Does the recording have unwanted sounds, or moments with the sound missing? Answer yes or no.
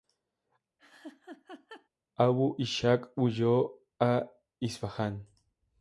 yes